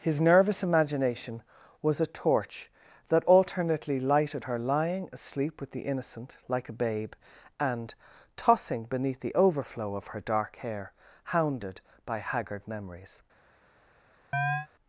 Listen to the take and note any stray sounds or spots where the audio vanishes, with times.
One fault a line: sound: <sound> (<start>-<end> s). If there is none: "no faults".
sound: chirp (14.3-14.7 s)